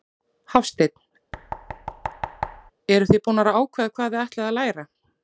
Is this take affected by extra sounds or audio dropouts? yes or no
yes